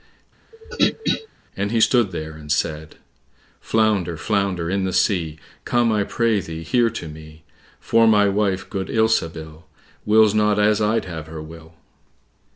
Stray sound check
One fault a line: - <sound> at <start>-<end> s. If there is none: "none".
- throat clearing at 0.5-1.3 s